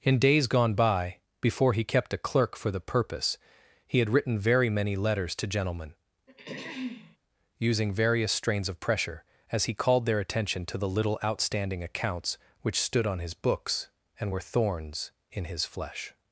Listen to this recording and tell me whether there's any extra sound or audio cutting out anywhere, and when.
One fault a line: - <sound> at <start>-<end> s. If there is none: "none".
- throat clearing at 6.3-7.2 s